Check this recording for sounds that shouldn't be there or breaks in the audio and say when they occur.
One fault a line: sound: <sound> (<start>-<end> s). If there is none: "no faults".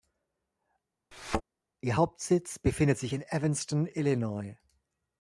sound: thud (1.1-1.4 s)